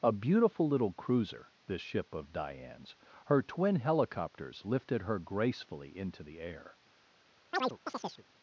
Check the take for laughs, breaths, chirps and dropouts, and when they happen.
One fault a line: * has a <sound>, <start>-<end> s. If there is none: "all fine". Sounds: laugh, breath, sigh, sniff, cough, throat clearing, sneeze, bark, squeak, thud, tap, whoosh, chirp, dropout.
* has a chirp, 7.5-8.2 s